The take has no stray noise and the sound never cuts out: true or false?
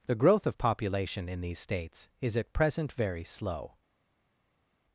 true